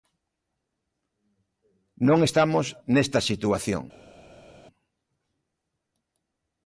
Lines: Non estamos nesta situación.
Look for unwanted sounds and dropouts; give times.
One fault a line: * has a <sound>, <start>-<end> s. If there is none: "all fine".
all fine